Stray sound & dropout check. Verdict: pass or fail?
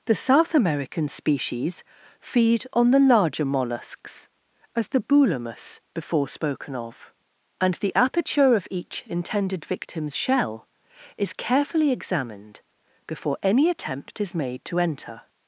pass